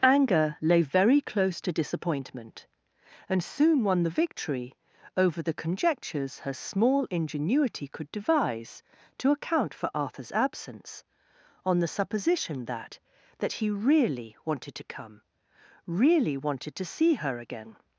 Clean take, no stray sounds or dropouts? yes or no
yes